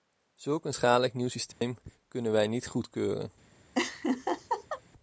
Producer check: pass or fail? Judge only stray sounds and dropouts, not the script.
fail